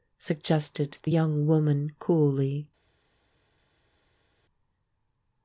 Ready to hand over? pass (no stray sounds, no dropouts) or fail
pass